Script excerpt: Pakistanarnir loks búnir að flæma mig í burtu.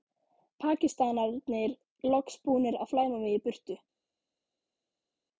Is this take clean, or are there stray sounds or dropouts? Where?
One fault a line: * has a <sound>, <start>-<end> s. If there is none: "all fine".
all fine